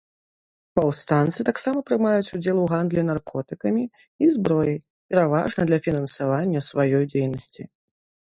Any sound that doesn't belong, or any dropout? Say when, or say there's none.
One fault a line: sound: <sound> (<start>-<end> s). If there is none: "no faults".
no faults